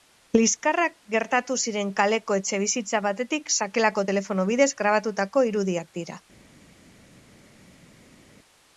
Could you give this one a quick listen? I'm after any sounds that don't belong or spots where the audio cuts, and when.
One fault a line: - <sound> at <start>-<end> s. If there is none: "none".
none